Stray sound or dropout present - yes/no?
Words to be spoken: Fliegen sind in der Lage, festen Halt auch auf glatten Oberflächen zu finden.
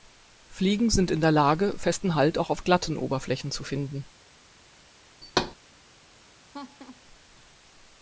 yes